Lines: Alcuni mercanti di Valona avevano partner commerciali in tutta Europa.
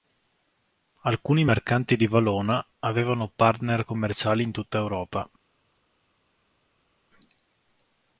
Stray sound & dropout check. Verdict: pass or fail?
pass